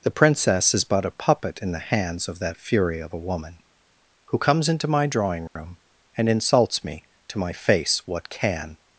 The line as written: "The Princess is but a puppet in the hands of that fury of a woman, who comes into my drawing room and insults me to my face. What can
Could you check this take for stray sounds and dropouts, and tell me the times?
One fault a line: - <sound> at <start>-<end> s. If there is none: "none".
- dropout at 5.5-5.6 s